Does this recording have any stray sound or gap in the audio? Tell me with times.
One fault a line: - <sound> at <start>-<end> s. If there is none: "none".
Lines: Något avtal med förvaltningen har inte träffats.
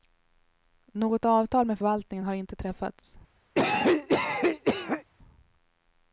- cough at 3.5-5.0 s